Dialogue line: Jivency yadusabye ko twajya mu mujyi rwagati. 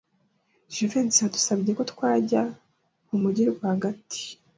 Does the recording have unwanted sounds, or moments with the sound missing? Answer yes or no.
no